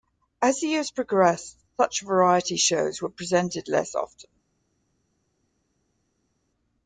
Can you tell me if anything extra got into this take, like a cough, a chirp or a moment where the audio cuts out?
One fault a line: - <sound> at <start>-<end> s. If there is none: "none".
none